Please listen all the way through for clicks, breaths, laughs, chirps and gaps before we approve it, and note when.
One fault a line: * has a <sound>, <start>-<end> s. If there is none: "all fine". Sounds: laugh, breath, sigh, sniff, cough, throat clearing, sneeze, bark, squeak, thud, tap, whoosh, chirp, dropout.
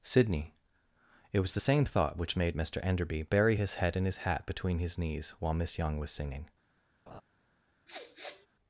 * has a laugh, 7.1-7.2 s
* has a sniff, 7.9-8.5 s